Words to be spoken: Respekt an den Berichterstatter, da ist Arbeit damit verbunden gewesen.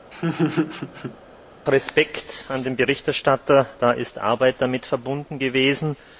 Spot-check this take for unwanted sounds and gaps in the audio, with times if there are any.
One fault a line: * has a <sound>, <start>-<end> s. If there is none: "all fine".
* has a laugh, 0.1-1.2 s